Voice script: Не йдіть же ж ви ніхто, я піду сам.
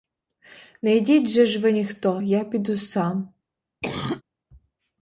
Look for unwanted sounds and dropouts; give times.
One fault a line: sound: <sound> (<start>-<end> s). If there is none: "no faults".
sound: cough (3.8-4.2 s)